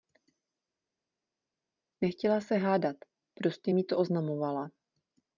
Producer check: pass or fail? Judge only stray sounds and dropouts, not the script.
pass